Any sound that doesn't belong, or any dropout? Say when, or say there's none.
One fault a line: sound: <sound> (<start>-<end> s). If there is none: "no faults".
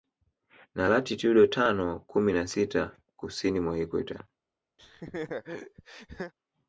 sound: laugh (4.8-6.3 s)